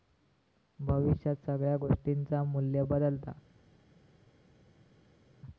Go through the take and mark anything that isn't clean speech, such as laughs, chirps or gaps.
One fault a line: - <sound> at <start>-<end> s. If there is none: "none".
none